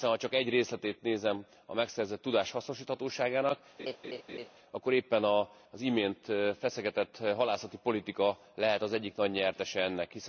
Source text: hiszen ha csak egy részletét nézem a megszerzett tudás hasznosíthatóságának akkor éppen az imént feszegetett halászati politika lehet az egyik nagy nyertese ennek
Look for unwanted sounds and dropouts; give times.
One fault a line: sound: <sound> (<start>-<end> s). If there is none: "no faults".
sound: laugh (3.8-4.5 s)